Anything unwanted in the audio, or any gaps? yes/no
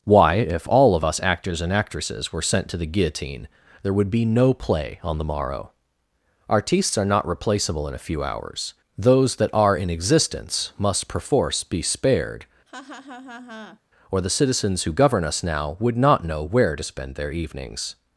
yes